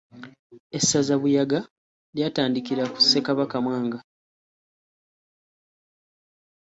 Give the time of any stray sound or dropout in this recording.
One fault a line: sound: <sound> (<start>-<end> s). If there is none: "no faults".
no faults